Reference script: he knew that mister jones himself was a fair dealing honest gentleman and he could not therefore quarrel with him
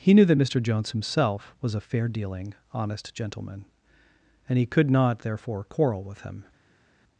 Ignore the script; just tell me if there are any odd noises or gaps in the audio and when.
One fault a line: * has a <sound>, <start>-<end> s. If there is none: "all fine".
all fine